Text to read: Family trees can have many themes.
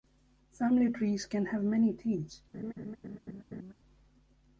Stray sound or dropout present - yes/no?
yes